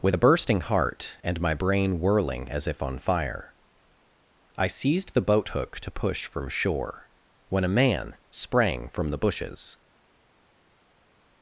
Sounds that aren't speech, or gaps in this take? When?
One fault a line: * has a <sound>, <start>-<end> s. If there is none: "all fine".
all fine